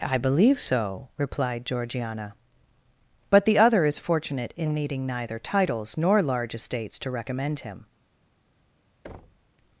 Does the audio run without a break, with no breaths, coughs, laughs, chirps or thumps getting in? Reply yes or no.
no